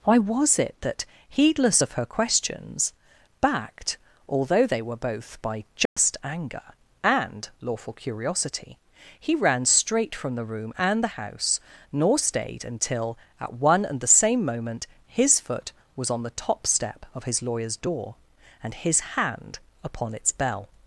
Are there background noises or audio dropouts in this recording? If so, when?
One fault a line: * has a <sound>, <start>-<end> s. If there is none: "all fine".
* has a dropout, 5.9-6.0 s